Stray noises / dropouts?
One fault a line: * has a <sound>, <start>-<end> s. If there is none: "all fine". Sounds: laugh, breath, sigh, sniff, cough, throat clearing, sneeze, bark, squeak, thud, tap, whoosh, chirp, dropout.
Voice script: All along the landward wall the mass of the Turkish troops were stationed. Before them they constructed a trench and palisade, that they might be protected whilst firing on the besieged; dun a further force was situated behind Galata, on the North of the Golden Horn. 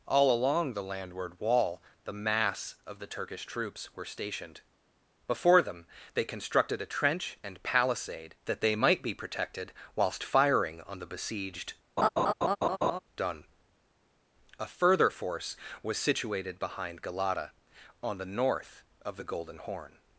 * has a laugh, 12.0-13.0 s